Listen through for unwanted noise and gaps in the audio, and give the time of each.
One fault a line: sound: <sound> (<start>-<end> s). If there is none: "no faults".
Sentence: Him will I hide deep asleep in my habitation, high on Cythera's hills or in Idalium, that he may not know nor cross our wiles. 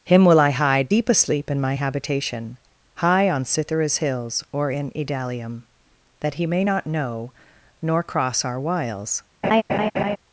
sound: laugh (9.4-10.2 s)